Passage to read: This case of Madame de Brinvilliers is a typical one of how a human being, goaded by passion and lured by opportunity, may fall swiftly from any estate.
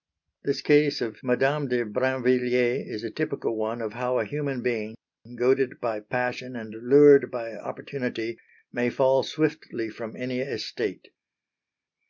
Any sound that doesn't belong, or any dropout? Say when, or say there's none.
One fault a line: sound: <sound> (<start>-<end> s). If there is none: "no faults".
no faults